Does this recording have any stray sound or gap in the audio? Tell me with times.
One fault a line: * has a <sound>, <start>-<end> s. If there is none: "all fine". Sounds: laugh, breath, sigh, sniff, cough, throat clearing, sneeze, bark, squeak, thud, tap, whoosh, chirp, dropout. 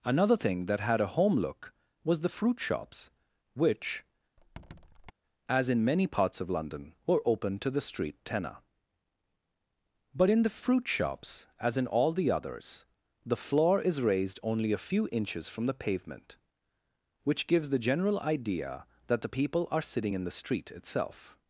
* has a squeak, 4.4-5.1 s